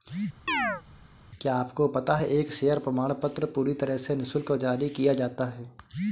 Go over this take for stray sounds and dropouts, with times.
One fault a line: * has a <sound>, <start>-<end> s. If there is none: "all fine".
* has a chirp, 0.5-0.8 s